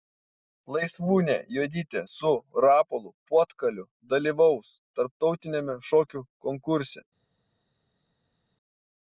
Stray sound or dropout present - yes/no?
no